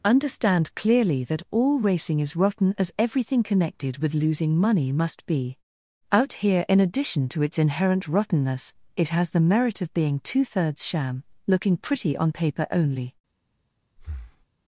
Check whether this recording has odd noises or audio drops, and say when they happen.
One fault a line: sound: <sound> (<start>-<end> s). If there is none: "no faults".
sound: breath (14.0-14.5 s)